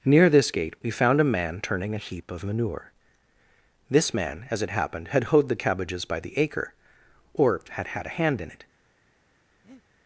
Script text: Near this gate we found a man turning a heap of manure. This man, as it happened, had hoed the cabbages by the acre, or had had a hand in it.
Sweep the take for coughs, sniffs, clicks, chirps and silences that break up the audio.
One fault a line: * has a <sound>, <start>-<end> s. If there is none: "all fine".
* has a breath, 9.6-9.8 s